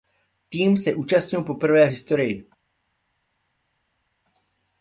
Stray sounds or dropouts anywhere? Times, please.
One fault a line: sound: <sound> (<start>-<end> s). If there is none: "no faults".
no faults